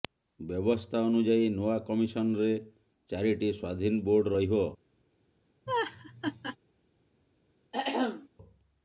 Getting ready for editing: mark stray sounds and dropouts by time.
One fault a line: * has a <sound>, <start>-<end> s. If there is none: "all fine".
* has a laugh, 5.7-6.6 s
* has a throat clearing, 7.7-8.3 s